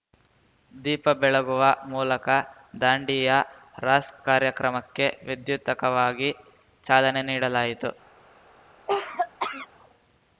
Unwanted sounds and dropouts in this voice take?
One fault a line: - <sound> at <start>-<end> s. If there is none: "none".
- cough at 8.9-9.7 s